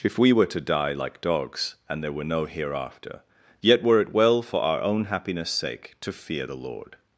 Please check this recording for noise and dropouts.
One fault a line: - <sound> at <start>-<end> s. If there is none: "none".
none